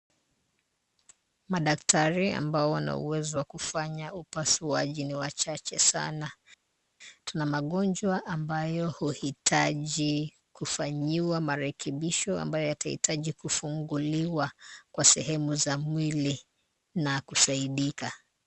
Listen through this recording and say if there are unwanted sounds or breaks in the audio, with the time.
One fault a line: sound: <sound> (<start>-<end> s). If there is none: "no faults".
no faults